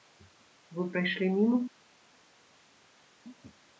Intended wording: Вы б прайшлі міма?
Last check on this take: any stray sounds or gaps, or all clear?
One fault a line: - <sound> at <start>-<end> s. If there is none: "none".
none